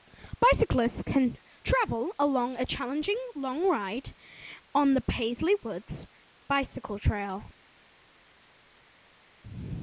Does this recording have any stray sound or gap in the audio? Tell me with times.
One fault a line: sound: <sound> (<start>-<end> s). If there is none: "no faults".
no faults